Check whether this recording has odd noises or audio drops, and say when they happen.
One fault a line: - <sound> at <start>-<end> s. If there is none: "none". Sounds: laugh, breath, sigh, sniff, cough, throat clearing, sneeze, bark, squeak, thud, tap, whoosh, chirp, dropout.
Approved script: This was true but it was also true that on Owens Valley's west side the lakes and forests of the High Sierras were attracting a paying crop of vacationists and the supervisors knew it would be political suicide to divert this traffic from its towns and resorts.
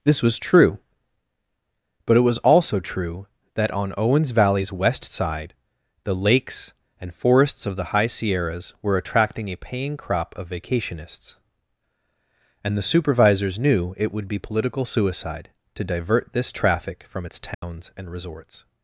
- dropout at 17.5-17.6 s